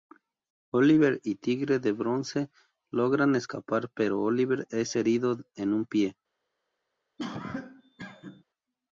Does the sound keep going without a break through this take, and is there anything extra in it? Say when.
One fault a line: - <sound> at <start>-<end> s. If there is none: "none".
- cough at 7.2-8.4 s